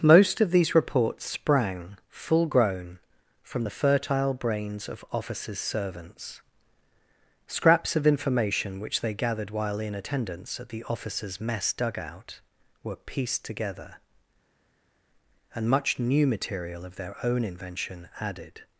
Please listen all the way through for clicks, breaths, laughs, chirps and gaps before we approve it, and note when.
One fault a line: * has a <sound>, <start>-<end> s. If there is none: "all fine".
all fine